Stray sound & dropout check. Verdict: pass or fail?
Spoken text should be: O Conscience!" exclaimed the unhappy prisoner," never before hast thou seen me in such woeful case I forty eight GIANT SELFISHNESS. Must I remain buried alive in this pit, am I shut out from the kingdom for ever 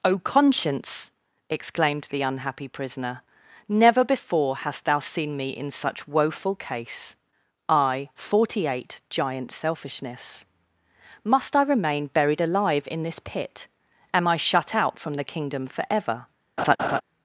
fail